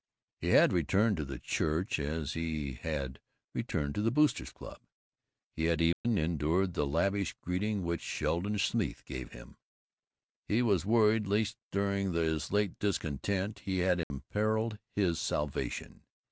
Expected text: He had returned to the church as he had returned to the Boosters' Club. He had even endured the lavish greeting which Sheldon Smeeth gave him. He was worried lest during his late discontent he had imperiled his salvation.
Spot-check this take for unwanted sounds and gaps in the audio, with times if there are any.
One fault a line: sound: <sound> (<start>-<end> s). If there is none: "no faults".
sound: dropout (5.9-6.0 s)
sound: dropout (14.0-14.1 s)